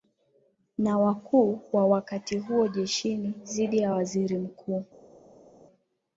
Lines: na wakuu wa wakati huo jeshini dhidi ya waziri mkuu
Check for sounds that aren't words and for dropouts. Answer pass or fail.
pass